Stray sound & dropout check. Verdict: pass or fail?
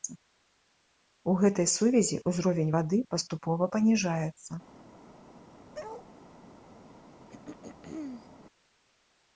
fail